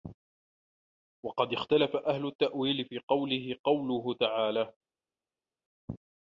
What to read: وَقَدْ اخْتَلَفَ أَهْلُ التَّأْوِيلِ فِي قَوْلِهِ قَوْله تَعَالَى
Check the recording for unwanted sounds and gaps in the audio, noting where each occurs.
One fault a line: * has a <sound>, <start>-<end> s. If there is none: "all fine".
all fine